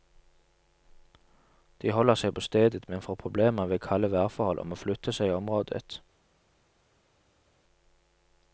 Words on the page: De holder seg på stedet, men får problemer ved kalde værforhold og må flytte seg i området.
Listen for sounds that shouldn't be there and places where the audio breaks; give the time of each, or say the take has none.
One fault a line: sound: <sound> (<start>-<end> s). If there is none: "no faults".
no faults